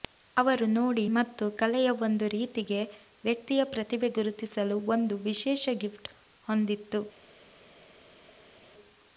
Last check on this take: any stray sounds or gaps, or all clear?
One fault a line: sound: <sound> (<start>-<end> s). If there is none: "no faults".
no faults